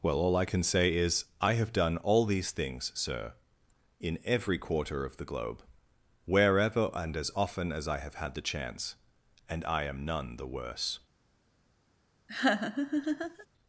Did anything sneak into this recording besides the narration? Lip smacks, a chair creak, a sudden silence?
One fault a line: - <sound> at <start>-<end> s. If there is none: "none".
- laugh at 12.3-13.5 s